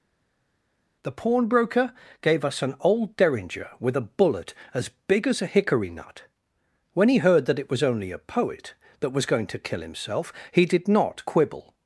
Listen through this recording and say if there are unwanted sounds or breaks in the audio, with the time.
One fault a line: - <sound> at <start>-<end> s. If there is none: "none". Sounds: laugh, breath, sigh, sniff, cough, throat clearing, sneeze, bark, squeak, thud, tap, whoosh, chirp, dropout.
none